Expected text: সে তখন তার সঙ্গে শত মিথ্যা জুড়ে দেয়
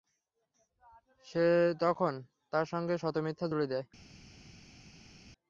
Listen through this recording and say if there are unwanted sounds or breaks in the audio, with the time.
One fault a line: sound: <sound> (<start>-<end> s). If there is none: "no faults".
no faults